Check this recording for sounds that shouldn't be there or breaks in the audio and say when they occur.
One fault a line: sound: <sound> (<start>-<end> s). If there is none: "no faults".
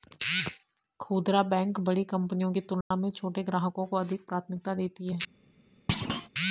sound: dropout (2.8-2.9 s)
sound: thud (5.9-6.3 s)